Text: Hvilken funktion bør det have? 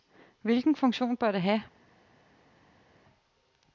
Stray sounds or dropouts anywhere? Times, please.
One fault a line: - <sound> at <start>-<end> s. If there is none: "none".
none